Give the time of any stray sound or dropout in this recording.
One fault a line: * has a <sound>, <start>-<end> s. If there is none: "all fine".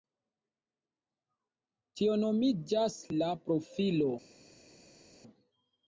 all fine